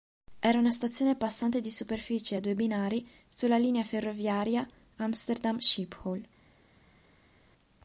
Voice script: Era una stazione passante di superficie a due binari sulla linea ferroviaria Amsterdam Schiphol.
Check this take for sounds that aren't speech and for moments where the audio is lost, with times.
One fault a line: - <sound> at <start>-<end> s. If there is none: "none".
none